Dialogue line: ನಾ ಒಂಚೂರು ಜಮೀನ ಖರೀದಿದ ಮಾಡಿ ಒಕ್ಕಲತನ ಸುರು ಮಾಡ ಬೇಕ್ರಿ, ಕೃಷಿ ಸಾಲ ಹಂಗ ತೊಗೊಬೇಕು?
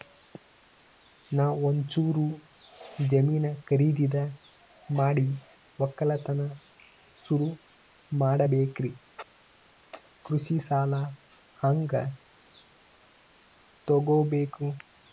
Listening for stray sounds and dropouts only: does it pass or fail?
pass